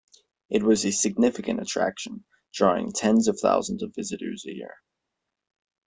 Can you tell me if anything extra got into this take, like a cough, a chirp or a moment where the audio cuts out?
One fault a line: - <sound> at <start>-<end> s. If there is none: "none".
none